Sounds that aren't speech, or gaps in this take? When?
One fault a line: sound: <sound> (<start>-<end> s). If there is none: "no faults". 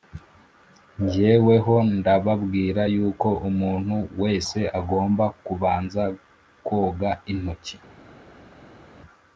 no faults